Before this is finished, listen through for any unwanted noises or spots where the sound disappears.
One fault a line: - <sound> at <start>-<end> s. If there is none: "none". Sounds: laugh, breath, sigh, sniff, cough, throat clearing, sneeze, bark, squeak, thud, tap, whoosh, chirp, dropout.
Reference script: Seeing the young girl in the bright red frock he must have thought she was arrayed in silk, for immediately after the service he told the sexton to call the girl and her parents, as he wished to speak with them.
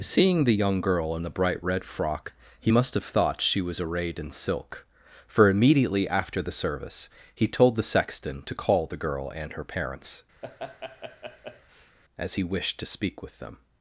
- laugh at 10.4-12.0 s